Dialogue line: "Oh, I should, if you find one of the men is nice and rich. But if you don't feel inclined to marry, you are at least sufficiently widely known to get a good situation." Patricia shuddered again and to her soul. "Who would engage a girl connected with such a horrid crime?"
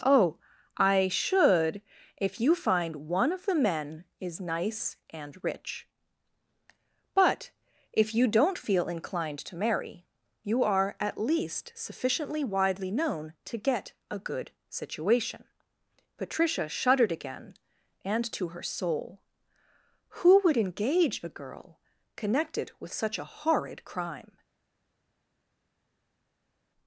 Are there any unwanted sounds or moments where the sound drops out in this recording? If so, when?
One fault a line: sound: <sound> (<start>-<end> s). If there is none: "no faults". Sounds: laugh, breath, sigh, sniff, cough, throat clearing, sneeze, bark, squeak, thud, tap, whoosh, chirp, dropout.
no faults